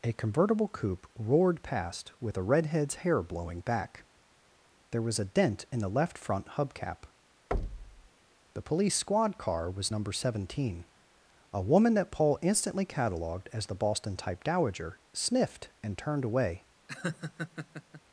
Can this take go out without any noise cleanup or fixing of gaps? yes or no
no